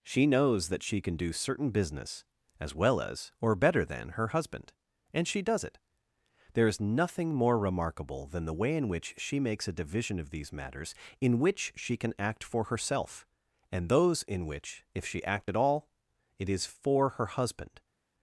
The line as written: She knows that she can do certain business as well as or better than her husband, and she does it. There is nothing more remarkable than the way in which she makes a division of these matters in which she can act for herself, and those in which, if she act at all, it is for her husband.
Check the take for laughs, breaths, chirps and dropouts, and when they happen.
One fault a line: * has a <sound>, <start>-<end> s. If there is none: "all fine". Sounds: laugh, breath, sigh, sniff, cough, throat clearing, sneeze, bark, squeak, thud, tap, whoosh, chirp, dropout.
all fine